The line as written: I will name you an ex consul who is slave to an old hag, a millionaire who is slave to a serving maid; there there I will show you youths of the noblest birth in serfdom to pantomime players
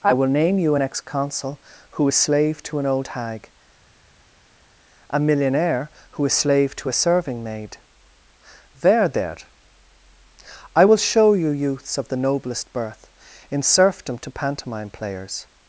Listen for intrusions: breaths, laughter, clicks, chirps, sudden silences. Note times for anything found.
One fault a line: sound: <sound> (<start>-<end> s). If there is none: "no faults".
no faults